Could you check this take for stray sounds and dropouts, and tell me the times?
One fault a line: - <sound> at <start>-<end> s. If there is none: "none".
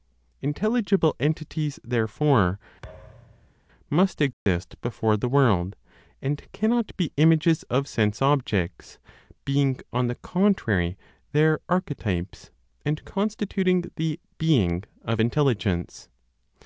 - thud at 2.8-3.5 s
- dropout at 4.3-4.5 s